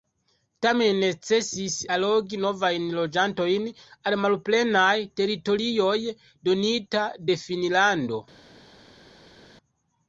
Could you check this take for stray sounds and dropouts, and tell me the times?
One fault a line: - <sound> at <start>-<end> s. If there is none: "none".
none